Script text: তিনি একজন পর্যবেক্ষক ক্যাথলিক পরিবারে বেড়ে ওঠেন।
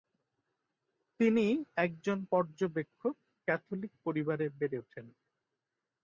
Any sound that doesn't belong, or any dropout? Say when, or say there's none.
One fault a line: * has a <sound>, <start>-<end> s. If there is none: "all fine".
all fine